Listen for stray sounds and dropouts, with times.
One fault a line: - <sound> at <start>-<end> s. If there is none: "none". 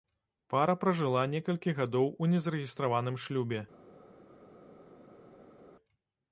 none